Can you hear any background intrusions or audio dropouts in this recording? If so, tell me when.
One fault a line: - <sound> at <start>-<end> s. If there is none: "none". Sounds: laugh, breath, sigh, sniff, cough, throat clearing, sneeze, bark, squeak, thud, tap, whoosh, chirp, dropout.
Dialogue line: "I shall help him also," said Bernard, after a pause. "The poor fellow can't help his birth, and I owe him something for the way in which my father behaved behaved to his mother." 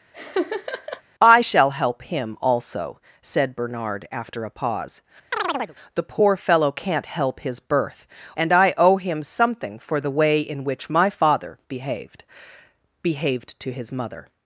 - laugh at 0.1-1.0 s
- chirp at 5.3-5.8 s